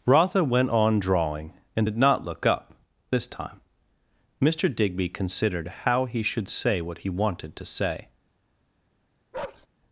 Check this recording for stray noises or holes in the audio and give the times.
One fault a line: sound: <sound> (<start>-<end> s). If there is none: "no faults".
sound: bark (9.3-9.7 s)